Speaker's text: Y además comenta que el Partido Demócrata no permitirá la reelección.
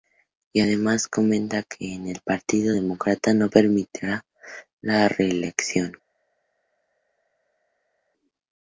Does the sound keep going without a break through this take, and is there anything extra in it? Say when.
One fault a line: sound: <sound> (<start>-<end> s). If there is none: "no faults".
no faults